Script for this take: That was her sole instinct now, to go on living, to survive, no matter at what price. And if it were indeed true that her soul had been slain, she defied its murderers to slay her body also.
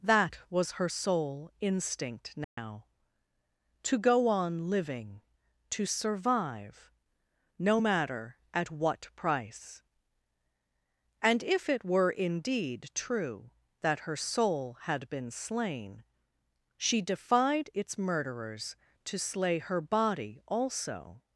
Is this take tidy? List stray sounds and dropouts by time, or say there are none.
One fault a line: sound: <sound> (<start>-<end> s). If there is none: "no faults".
sound: dropout (2.4-2.6 s)